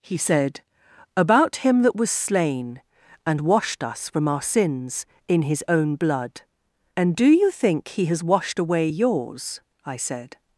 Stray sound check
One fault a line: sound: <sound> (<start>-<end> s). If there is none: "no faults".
no faults